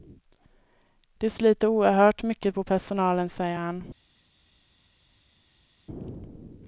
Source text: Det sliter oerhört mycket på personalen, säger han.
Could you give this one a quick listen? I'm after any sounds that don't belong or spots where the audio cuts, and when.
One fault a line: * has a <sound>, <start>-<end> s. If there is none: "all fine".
all fine